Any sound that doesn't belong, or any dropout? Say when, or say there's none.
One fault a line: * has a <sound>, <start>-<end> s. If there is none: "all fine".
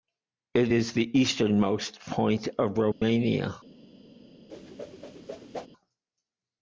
* has a dropout, 2.9-3.0 s
* has a whoosh, 4.5-5.7 s